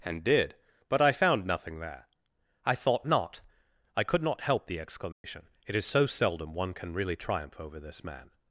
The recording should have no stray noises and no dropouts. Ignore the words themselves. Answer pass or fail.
fail